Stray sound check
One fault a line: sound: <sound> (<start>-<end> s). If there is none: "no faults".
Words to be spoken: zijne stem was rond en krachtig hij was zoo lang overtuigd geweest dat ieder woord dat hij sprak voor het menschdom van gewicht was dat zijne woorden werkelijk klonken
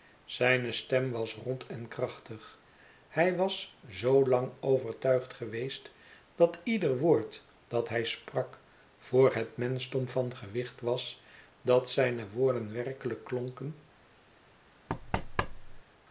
sound: thud (14.9-15.8 s)